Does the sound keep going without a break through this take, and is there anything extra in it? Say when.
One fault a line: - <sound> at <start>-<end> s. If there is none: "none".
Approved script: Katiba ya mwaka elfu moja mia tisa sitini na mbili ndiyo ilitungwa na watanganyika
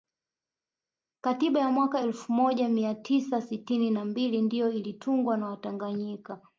none